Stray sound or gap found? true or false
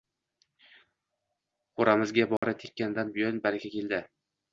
true